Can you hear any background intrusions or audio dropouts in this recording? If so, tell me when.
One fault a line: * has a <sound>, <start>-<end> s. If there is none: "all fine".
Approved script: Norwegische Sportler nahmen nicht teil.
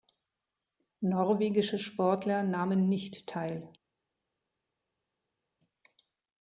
all fine